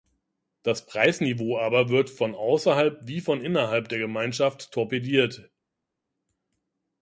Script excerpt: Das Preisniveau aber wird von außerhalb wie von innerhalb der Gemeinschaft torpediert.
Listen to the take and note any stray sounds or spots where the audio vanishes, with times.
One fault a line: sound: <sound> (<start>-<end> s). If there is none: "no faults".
no faults